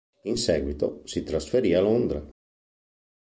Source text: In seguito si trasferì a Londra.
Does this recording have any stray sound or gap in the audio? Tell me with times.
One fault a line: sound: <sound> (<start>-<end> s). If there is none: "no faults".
no faults